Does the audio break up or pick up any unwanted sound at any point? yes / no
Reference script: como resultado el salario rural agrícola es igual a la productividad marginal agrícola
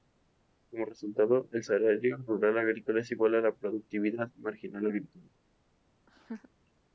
yes